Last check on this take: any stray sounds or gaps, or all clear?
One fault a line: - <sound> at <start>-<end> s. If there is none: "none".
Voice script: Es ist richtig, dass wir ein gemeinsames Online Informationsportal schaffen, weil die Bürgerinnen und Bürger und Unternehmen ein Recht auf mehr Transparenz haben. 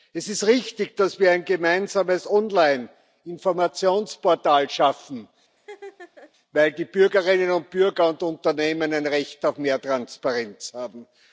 - laugh at 5.6-6.3 s